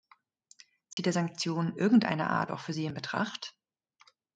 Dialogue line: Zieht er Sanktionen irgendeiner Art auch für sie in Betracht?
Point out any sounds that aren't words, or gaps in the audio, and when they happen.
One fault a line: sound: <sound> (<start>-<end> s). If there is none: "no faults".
sound: dropout (0.9-1.0 s)